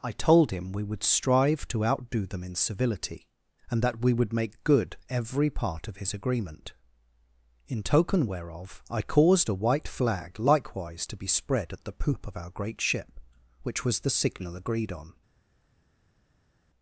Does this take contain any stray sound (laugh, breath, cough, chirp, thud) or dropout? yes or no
no